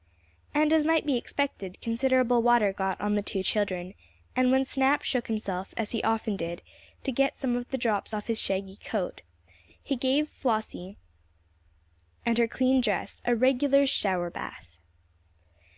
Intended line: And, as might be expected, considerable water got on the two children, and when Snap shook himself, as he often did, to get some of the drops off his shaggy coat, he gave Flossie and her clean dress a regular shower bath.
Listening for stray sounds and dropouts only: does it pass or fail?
pass